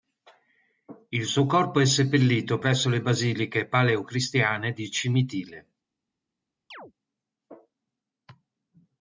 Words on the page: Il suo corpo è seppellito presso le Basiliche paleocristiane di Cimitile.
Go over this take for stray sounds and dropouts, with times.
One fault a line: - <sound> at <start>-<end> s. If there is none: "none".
- chirp at 6.7-6.9 s